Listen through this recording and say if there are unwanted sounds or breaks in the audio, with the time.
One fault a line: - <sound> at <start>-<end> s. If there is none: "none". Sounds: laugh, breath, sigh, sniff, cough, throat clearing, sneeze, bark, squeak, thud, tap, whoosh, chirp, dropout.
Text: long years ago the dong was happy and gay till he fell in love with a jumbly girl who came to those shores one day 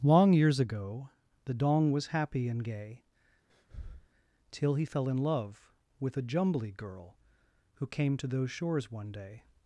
- breath at 3.5-4.1 s